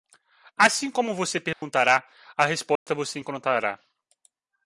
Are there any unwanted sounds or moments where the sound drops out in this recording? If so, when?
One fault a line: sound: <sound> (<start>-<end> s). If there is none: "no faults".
sound: dropout (1.5-1.6 s)
sound: dropout (2.8-2.9 s)